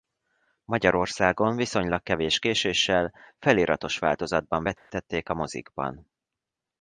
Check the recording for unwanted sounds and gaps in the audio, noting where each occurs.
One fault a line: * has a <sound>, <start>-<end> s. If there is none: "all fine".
* has a dropout, 4.8-4.9 s